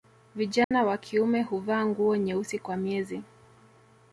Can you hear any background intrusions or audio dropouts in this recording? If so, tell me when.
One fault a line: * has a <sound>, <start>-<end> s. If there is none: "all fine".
* has a dropout, 0.6-0.7 s